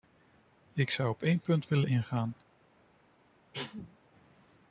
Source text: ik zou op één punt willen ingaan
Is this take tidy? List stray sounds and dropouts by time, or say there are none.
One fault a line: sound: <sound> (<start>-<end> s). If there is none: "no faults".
sound: cough (3.5-4.0 s)